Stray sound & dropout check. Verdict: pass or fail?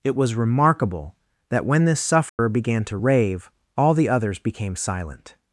fail